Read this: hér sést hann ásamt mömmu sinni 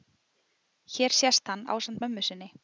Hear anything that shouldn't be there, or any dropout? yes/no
no